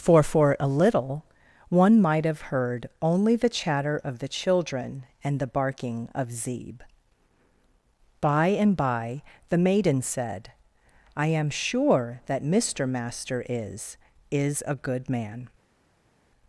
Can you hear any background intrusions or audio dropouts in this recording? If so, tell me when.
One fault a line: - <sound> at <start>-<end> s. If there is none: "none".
none